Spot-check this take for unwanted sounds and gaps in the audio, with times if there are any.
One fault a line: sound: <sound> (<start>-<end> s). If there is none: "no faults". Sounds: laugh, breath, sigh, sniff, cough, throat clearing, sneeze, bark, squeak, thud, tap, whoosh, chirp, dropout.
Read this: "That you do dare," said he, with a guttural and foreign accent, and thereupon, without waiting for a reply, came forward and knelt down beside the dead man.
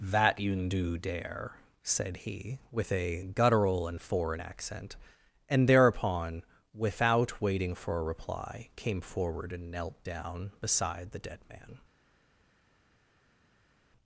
no faults